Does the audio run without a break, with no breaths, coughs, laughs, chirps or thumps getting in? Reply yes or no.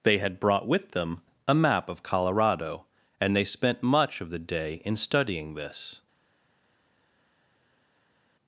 yes